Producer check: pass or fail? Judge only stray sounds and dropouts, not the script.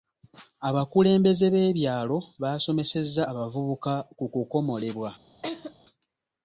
fail